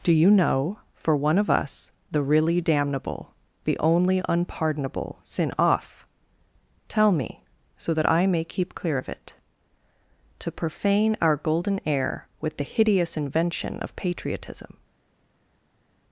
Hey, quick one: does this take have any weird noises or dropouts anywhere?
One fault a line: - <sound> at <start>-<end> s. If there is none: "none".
none